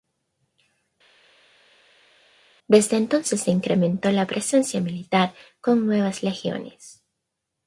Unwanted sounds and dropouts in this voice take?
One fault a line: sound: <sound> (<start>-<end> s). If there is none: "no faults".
no faults